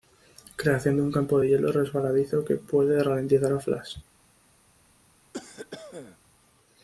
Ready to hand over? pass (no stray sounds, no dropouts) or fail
fail